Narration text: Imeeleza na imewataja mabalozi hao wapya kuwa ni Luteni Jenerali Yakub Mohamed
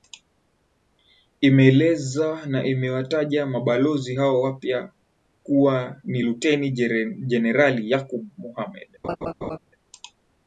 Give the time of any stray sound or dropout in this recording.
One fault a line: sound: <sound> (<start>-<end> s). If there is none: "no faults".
sound: laugh (9.0-9.6 s)